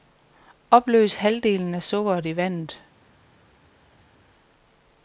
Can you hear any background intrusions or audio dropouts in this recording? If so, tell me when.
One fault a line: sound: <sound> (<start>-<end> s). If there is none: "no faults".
no faults